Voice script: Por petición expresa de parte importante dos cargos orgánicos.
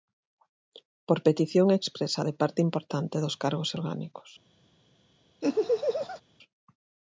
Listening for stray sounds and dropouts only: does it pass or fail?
fail